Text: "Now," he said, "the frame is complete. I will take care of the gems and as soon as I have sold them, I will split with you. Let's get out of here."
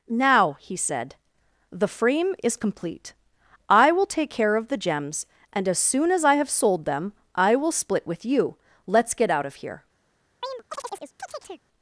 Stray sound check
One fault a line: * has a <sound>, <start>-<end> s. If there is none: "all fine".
* has a chirp, 10.4-11.6 s